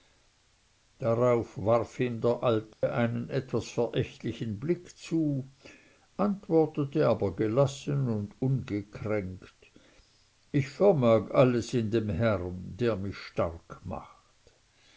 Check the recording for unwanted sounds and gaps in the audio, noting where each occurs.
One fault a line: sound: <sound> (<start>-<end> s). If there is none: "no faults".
sound: dropout (2.7-2.8 s)